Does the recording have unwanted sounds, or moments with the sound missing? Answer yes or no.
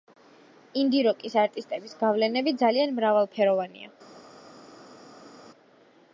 no